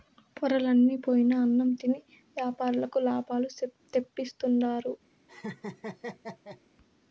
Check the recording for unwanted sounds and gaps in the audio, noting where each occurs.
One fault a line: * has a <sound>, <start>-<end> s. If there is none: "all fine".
* has a laugh, 5.3-6.6 s